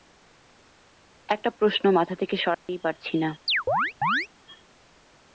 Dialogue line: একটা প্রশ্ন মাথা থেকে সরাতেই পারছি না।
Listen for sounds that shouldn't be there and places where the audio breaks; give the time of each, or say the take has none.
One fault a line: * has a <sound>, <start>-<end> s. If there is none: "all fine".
* has a dropout, 2.5-2.7 s
* has a chirp, 3.5-4.3 s